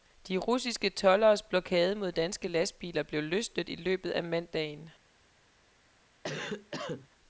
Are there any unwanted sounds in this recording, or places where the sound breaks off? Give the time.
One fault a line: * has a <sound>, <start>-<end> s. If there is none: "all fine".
* has a cough, 6.2-7.1 s